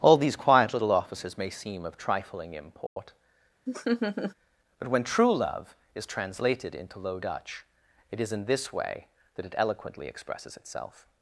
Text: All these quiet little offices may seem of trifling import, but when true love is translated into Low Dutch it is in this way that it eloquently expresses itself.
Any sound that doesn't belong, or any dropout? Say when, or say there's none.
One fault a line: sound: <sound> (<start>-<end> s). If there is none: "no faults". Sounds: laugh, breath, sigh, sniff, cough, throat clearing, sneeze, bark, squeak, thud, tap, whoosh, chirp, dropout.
sound: dropout (2.9-3.0 s)
sound: laugh (3.7-4.3 s)